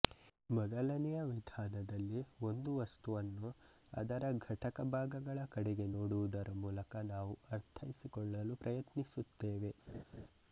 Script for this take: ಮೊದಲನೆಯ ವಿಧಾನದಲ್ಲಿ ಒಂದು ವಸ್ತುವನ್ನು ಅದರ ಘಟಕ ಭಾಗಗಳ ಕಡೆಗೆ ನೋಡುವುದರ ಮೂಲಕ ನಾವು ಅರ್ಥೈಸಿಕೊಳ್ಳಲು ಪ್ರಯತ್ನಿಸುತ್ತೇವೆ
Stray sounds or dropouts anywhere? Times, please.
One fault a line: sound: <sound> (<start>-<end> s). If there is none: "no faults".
sound: laugh (9.9-10.3 s)